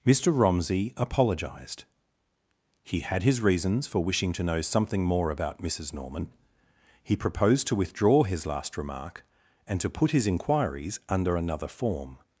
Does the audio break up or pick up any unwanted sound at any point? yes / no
no